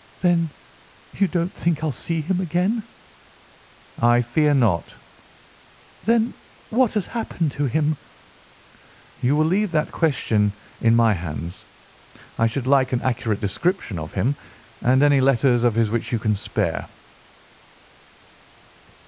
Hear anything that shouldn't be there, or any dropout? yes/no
no